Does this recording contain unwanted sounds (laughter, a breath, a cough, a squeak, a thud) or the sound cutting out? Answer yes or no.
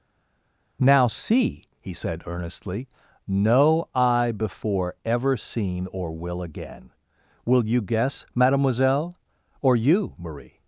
no